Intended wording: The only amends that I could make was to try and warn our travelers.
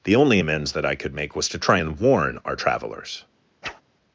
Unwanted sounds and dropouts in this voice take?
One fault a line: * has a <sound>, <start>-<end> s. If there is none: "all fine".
* has a whoosh, 3.6-3.8 s